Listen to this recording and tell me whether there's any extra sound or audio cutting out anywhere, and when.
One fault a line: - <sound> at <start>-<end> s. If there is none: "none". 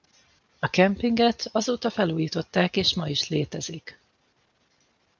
none